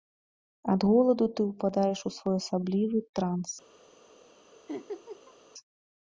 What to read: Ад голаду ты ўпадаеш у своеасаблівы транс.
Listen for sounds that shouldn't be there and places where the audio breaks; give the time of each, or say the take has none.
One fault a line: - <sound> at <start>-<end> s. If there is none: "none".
- laugh at 4.7-5.4 s